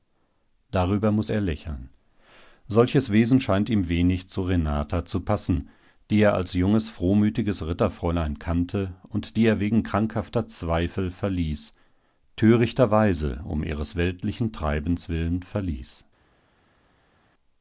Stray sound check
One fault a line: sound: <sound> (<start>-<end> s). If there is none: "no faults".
no faults